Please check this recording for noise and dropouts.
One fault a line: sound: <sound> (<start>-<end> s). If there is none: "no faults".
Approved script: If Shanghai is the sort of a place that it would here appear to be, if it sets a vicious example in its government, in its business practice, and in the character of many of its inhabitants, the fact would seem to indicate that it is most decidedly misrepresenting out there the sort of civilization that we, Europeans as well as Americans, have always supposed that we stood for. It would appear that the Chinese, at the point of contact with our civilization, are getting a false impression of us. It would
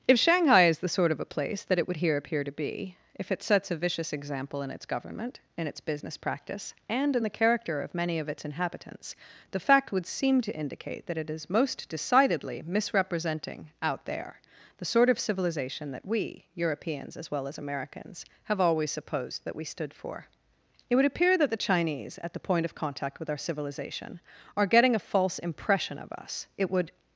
no faults